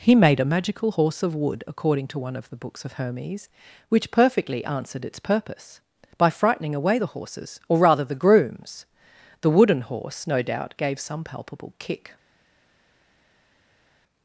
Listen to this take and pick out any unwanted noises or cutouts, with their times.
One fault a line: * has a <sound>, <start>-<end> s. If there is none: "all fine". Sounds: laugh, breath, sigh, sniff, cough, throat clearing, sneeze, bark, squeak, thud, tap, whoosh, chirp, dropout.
all fine